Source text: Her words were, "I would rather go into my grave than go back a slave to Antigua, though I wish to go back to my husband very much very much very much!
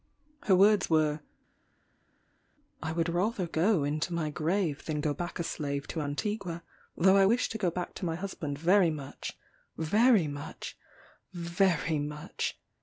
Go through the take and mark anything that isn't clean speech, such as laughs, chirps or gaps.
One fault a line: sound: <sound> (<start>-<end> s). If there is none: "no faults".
no faults